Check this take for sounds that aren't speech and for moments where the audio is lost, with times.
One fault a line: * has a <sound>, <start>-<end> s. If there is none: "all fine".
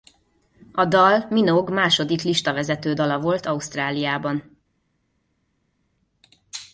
all fine